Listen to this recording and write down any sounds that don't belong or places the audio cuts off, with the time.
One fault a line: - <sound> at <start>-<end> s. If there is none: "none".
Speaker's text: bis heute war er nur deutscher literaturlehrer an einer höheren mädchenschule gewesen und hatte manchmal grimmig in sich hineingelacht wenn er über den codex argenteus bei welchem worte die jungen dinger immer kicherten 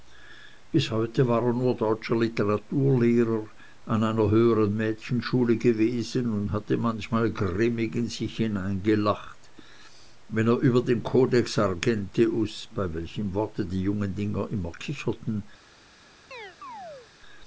- chirp at 16.3-17.1 s